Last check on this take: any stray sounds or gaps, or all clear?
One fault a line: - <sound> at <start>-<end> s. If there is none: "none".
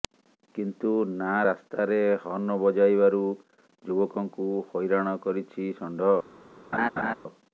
- laugh at 6.7-7.1 s